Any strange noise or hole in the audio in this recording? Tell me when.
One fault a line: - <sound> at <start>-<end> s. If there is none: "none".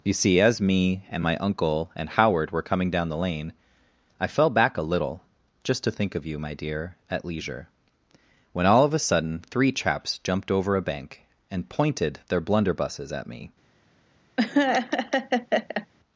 - laugh at 14.4-15.9 s